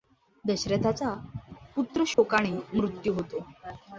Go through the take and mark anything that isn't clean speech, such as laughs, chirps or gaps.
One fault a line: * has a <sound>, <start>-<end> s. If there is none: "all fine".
* has a dropout, 2.1-2.2 s